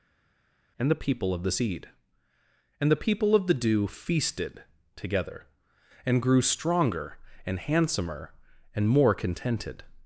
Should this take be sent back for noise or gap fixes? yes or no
no